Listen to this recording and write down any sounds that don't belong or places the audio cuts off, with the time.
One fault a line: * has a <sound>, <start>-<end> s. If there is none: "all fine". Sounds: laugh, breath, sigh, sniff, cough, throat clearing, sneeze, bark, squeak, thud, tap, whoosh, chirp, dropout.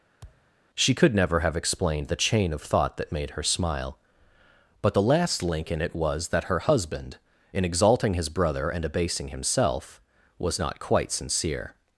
* has a thud, 0.2-0.5 s